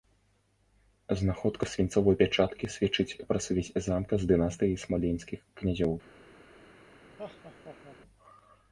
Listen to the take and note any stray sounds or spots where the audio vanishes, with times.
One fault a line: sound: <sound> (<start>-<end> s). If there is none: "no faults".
sound: laugh (7.2-8.0 s)